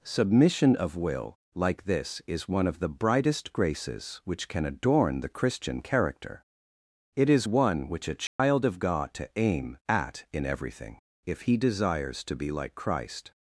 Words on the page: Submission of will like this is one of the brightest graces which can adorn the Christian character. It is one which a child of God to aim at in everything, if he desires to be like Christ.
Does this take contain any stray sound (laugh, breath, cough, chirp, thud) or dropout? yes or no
yes